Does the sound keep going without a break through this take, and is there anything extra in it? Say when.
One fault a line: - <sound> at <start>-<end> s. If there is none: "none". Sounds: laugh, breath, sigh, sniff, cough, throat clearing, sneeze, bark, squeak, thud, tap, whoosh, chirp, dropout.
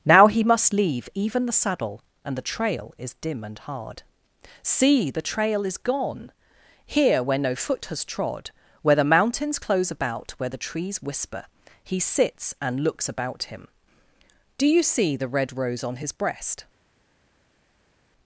none